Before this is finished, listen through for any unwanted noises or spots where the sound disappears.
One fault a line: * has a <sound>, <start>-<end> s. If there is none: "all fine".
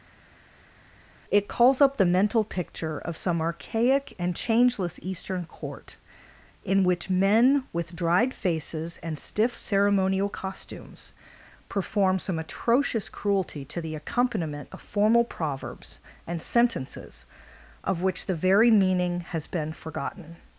all fine